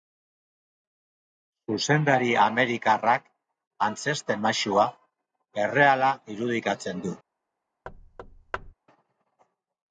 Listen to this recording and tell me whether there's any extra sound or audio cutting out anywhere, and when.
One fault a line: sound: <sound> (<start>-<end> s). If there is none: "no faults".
sound: thud (7.9-8.7 s)